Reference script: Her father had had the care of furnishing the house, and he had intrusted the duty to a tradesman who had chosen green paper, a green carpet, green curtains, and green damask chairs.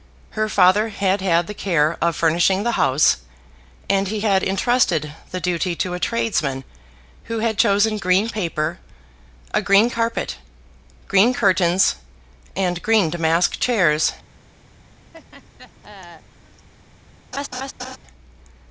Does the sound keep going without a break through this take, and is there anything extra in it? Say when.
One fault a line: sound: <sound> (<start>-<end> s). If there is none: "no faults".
sound: laugh (15.1-16.7 s)
sound: laugh (17.3-18.0 s)